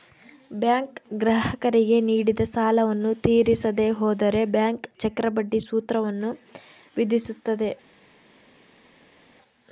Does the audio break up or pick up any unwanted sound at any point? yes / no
no